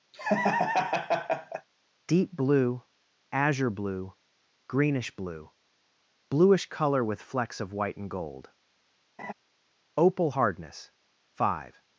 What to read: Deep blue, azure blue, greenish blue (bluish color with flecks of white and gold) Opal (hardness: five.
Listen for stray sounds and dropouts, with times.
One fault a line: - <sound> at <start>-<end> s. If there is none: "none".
- laugh at 0.1-1.7 s
- laugh at 9.2-9.3 s